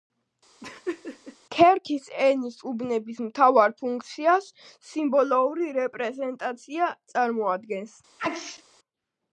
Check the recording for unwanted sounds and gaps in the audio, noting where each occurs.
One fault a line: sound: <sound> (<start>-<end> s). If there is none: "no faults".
sound: laugh (0.6-1.4 s)
sound: sneeze (8.2-8.6 s)